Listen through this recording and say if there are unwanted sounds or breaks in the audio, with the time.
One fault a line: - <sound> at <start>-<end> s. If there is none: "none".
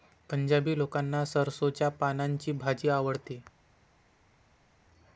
none